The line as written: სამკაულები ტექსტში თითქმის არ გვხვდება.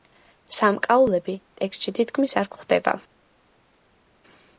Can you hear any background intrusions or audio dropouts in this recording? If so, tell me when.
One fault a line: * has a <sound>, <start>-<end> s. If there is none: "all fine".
all fine